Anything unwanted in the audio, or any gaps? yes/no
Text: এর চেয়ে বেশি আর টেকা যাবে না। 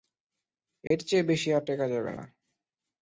yes